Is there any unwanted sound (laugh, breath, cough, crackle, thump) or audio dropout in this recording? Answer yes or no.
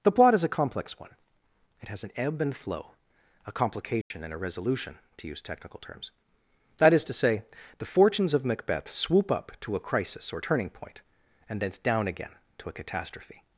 yes